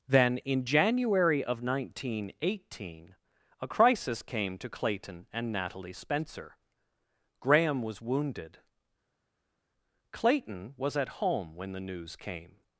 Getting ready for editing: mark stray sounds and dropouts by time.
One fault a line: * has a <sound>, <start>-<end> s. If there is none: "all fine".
all fine